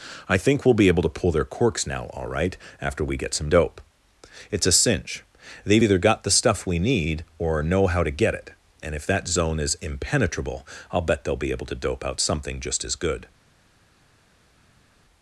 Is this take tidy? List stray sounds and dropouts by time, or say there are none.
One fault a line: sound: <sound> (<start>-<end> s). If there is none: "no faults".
no faults